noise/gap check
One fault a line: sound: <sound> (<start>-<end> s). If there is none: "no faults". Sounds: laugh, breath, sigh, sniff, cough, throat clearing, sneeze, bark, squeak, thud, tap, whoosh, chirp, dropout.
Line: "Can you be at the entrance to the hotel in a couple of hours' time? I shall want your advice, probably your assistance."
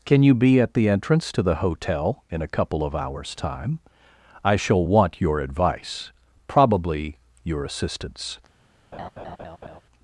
sound: laugh (8.9-9.8 s)